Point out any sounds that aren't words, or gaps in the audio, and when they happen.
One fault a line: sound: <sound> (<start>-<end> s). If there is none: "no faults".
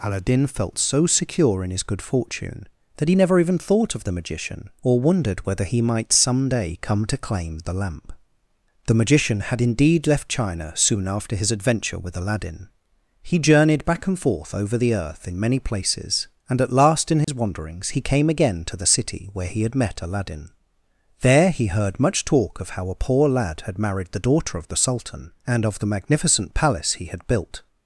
sound: dropout (17.2-17.3 s)